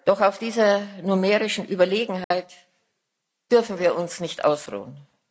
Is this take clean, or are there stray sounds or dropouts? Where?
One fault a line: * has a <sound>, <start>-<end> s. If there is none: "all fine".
* has a dropout, 2.2-2.3 s